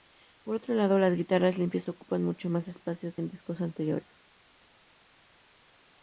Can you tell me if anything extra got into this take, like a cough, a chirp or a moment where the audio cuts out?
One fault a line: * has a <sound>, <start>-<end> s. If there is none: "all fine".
all fine